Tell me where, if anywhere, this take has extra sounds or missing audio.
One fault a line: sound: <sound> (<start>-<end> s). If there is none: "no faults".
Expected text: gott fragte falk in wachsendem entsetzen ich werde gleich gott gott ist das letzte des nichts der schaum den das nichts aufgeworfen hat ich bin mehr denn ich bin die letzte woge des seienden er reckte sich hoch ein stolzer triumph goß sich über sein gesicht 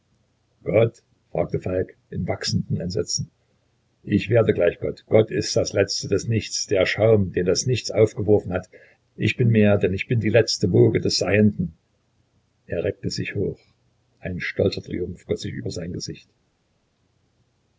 no faults